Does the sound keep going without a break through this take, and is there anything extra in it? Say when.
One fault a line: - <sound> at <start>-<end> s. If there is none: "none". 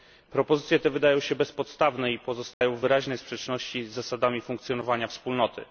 - dropout at 2.5-2.6 s